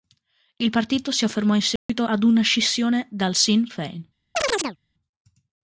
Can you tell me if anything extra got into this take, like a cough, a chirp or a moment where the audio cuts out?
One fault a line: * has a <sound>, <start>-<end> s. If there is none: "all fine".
* has a dropout, 1.8-1.9 s
* has a chirp, 4.3-4.8 s